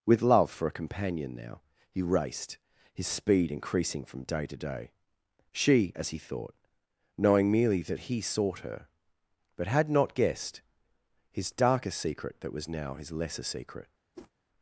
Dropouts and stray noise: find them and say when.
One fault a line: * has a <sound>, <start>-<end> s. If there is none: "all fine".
* has a whoosh, 14.1-14.3 s